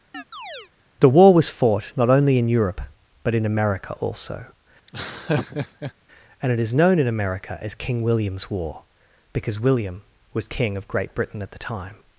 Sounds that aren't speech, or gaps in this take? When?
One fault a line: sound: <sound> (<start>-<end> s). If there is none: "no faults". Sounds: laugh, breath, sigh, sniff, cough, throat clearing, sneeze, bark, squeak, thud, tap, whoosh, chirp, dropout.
sound: chirp (0.1-0.7 s)
sound: laugh (4.9-5.9 s)